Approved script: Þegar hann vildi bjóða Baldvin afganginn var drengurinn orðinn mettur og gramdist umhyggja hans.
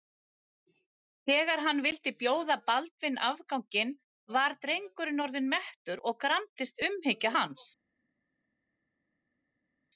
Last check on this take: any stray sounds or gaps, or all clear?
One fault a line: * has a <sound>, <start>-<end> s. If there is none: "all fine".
all fine